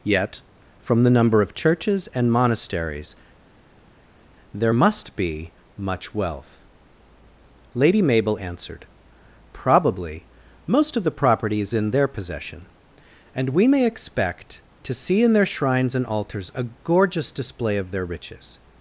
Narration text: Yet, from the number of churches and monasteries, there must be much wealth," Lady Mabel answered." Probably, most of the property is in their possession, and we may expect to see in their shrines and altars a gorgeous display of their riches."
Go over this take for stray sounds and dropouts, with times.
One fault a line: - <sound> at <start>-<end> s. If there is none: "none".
none